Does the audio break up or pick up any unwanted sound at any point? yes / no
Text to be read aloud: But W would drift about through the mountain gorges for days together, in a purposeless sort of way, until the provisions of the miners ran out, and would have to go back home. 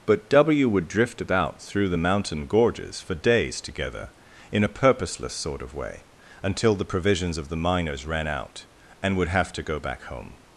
no